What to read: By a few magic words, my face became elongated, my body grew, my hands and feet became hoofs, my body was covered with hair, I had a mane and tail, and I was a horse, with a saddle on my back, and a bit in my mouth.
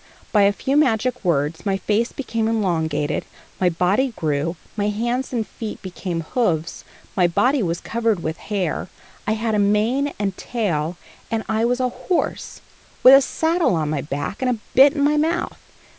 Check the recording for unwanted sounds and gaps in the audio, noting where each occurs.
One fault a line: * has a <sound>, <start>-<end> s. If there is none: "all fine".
all fine